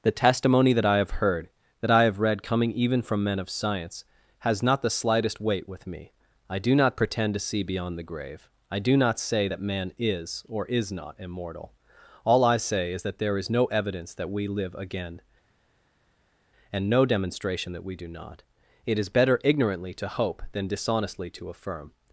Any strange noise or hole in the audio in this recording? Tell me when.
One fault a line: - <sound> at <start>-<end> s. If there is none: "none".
none